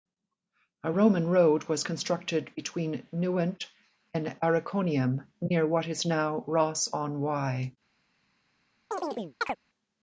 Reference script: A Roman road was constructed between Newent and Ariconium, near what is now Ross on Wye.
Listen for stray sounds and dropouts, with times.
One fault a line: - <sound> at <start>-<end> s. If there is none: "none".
- chirp at 8.9-9.6 s